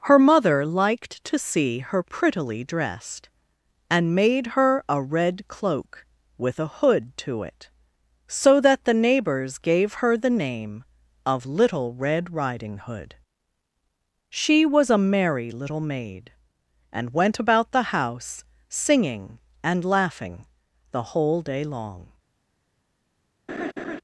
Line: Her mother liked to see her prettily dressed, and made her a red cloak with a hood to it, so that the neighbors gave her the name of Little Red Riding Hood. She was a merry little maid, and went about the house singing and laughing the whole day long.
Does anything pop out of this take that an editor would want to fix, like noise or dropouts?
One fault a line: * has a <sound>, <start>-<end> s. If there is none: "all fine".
* has a laugh, 23.5-24.0 s